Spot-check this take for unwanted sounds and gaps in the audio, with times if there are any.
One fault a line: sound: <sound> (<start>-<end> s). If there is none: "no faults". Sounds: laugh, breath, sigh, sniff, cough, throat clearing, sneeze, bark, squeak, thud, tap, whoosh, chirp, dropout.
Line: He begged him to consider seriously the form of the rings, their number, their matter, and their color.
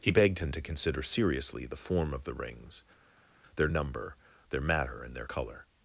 no faults